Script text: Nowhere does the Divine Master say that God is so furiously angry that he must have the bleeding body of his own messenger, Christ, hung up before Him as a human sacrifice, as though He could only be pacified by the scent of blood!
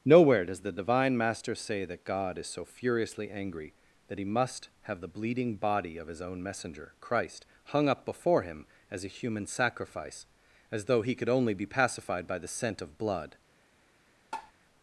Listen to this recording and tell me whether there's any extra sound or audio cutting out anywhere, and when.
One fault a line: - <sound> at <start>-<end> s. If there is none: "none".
- tap at 14.3-14.5 s